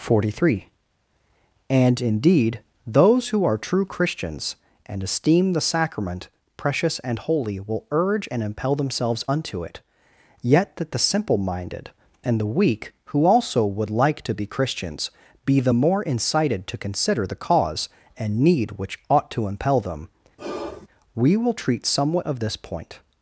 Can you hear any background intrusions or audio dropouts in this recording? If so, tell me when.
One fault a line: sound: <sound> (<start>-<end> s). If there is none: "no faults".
sound: sigh (20.4-20.9 s)